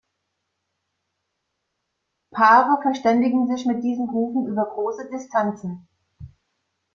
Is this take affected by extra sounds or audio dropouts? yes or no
no